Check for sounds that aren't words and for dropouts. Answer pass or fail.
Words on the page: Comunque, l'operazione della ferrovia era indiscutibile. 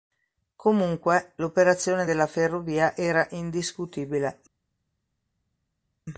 pass